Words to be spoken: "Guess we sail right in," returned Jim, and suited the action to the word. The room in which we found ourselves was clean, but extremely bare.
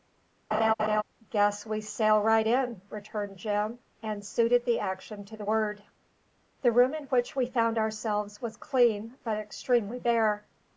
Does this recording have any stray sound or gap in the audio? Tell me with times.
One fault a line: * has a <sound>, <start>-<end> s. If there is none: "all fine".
* has a laugh, 0.5-1.0 s